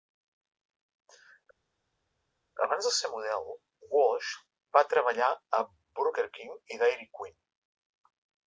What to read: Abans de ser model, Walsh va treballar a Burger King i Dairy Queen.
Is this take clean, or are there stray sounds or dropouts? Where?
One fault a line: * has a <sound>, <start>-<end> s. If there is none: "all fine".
all fine